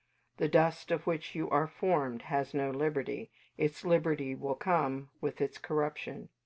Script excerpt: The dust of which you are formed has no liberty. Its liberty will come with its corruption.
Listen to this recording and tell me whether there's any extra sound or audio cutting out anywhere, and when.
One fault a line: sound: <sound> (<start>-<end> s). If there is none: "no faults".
no faults